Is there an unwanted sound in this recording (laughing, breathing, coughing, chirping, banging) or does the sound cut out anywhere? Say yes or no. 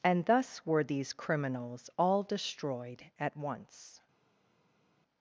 no